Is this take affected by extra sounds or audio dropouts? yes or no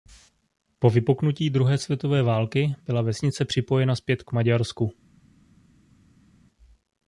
no